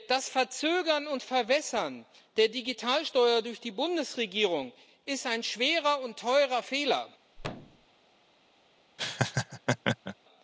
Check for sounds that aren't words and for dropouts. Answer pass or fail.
fail